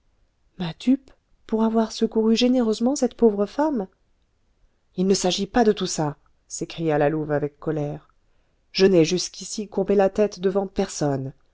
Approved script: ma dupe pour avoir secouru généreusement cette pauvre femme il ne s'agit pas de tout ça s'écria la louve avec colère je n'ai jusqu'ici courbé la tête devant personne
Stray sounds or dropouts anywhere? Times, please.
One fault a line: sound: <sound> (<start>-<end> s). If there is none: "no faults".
no faults